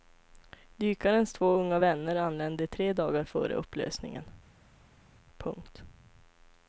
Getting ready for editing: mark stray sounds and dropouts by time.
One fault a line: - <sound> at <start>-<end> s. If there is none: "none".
none